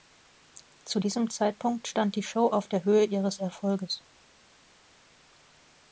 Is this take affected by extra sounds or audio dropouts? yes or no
no